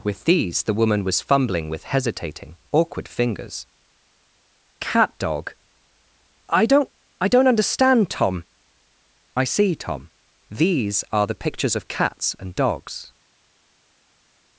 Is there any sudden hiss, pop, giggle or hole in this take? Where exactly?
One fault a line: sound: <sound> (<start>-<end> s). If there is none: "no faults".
no faults